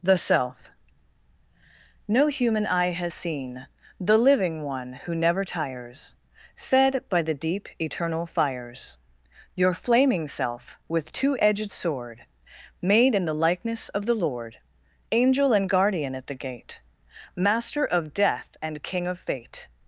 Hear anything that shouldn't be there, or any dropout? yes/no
no